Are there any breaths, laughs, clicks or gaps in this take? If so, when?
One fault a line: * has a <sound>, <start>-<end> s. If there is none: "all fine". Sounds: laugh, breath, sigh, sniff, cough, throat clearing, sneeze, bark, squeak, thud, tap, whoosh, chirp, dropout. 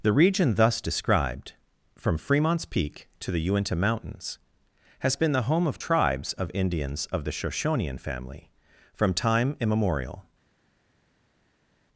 all fine